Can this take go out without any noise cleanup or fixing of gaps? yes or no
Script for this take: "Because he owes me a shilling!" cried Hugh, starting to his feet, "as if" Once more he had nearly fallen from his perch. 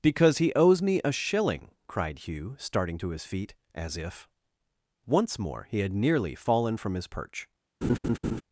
no